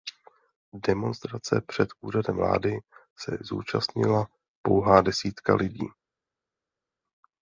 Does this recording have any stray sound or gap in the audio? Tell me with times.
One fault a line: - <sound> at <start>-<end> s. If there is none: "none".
none